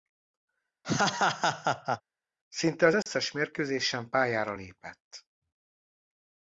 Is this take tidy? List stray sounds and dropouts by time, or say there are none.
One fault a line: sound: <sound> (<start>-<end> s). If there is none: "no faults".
sound: laugh (0.8-2.0 s)
sound: dropout (3.0-3.1 s)